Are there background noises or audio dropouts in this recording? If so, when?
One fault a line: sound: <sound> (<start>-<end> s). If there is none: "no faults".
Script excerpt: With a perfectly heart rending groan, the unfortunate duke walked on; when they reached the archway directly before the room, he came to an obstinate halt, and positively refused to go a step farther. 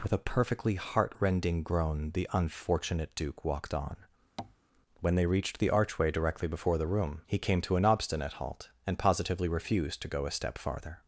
sound: tap (4.4-4.6 s)